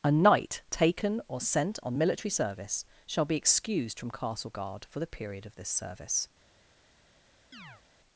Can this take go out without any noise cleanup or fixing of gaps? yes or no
no